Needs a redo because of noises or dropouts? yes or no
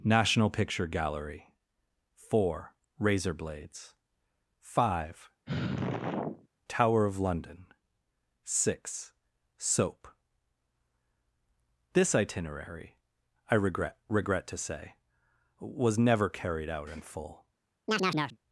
yes